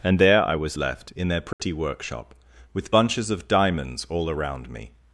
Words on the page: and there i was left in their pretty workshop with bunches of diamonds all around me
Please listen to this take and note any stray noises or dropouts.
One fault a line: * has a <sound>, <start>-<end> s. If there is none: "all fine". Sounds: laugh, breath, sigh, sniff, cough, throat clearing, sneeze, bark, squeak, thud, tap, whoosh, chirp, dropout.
* has a dropout, 1.5-1.6 s